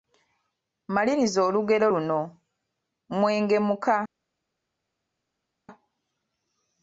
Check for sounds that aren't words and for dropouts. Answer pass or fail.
pass